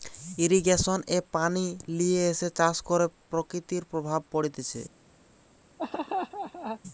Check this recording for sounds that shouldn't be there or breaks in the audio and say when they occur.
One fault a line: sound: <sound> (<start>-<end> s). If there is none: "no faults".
sound: laugh (5.8-6.8 s)